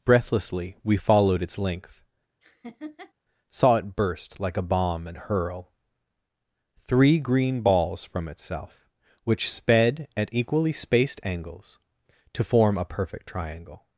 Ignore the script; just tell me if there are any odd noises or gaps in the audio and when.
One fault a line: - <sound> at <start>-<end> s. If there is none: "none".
- laugh at 2.4-3.1 s